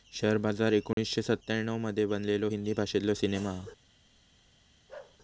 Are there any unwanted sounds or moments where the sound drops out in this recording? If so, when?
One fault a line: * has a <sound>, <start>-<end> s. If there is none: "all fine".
* has a dropout, 0.9-1.0 s
* has a bark, 4.9-5.2 s